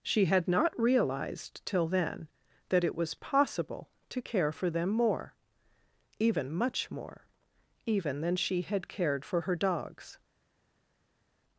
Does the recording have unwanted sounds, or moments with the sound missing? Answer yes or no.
no